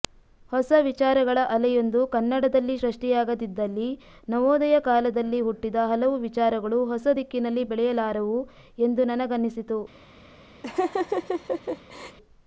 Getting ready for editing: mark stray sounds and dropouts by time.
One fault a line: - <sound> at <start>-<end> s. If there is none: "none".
- laugh at 10.6-12.2 s